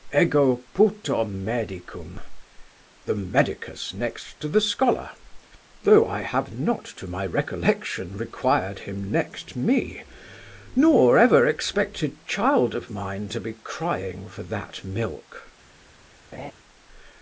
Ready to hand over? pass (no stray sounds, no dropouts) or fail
fail